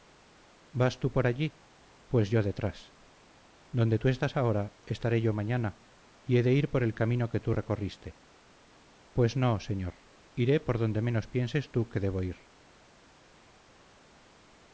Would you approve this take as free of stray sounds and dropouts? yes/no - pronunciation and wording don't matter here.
yes